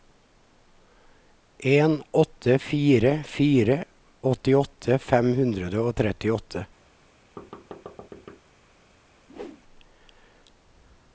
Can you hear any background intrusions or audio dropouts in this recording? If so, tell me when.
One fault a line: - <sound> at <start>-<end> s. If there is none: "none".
- thud at 7.4-8.4 s
- whoosh at 9.3-9.6 s